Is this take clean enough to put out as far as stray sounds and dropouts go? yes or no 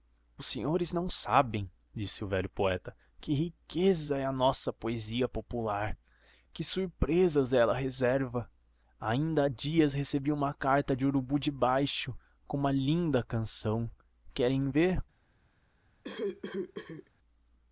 no